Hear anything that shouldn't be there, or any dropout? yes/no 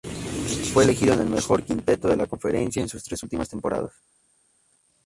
no